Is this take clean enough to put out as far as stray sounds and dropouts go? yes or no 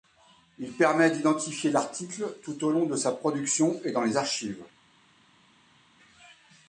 yes